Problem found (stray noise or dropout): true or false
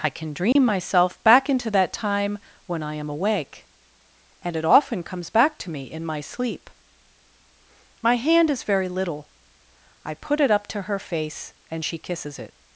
true